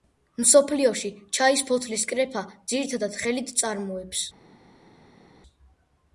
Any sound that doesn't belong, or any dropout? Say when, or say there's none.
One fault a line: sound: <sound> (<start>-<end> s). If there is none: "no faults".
no faults